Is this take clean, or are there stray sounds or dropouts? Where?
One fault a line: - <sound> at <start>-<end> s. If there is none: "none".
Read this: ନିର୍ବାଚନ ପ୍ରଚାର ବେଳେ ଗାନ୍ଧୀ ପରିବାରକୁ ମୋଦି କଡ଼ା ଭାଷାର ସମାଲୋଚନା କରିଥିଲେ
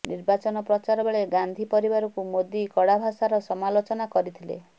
none